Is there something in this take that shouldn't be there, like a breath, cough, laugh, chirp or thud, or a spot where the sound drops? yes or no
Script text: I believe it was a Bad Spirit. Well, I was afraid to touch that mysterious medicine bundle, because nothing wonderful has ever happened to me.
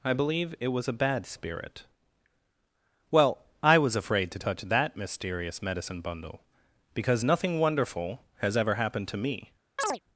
yes